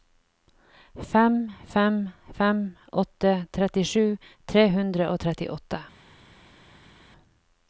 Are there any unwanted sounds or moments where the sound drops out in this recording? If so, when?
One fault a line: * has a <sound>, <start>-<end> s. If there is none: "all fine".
all fine